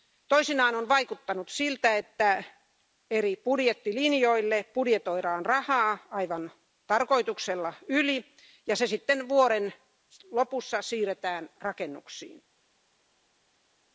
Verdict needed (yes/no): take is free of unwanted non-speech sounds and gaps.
yes